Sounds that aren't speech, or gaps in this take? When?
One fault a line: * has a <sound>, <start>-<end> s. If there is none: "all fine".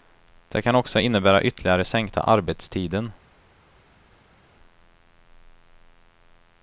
all fine